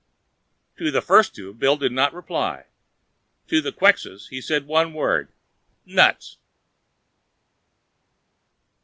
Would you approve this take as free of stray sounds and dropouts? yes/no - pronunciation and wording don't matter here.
yes